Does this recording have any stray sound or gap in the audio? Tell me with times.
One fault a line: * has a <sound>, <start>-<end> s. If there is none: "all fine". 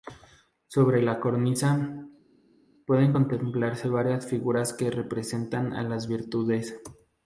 all fine